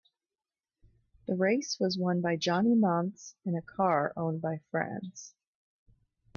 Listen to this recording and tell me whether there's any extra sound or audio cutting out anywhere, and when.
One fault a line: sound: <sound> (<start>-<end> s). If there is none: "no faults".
no faults